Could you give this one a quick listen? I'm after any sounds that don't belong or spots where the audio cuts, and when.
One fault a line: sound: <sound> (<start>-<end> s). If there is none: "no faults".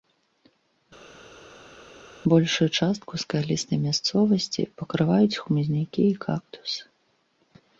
no faults